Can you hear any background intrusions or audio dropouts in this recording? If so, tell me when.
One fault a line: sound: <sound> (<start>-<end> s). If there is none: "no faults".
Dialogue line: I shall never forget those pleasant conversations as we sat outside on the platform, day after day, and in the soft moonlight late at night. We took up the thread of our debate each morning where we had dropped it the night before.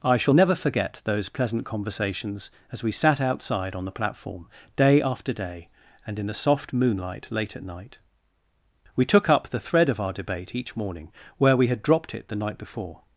no faults